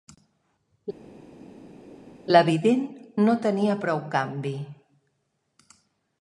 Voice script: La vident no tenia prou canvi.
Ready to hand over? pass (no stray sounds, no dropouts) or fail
pass